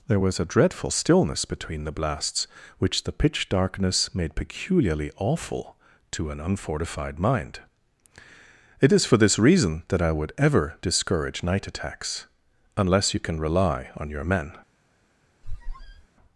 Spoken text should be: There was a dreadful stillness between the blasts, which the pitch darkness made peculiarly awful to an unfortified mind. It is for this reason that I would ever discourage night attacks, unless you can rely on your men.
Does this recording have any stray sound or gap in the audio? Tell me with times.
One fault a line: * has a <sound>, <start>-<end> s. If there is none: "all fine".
* has a squeak, 15.4-16.1 s